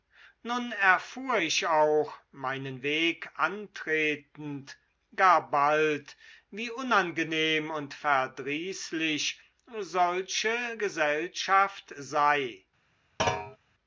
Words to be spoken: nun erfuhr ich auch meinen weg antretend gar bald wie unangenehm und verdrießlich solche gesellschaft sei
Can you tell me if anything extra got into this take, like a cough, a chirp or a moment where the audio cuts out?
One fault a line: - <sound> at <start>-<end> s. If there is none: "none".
- thud at 13.2-13.6 s